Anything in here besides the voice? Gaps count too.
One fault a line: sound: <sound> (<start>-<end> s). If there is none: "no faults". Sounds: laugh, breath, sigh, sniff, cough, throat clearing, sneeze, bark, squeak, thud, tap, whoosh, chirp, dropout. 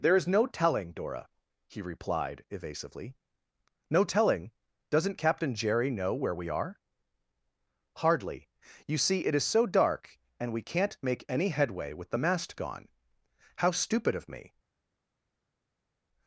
no faults